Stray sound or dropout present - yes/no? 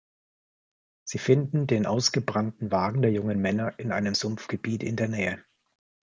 no